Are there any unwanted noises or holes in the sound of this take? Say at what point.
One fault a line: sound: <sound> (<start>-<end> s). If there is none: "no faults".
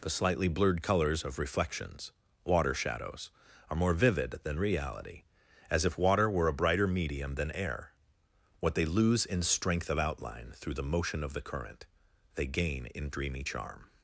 no faults